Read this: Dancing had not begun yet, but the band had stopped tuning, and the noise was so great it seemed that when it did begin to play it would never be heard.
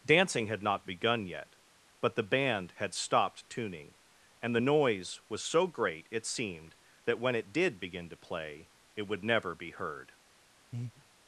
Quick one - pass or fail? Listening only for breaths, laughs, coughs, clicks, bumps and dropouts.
fail